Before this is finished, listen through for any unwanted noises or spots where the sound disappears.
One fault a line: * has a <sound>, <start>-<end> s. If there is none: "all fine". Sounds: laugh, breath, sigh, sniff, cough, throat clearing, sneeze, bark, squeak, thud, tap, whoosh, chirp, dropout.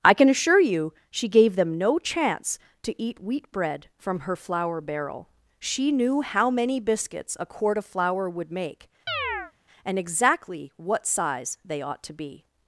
* has a chirp, 9.1-9.5 s